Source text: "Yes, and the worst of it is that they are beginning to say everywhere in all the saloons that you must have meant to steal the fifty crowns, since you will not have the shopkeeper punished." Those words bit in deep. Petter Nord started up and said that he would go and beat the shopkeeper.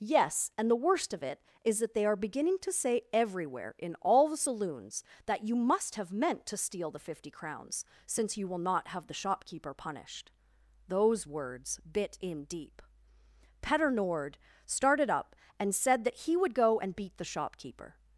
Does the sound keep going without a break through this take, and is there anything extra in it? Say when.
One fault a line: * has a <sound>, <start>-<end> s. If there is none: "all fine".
all fine